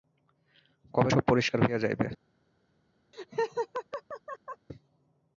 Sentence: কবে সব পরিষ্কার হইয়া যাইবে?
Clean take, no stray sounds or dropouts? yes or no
no